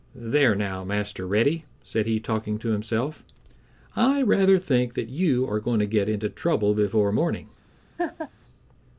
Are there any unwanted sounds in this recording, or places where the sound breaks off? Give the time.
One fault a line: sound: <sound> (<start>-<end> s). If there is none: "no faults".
sound: laugh (8.0-8.3 s)